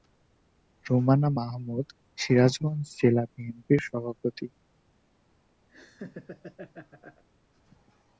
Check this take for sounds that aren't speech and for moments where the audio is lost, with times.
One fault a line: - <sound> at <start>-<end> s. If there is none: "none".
- laugh at 5.7-7.2 s